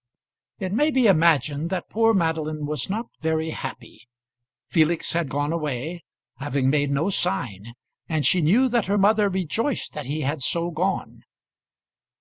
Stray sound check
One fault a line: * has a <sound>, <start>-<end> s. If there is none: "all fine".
all fine